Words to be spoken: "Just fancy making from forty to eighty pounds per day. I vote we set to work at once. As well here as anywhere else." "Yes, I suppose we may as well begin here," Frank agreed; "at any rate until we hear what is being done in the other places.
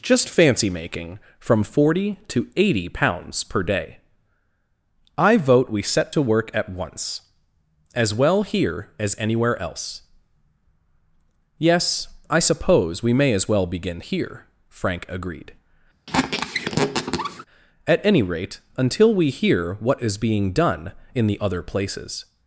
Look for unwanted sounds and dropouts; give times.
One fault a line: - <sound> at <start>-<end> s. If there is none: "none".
- squeak at 16.1-17.4 s